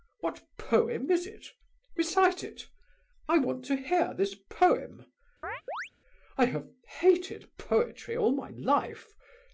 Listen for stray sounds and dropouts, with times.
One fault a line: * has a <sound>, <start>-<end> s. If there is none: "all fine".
* has a chirp, 5.4-5.9 s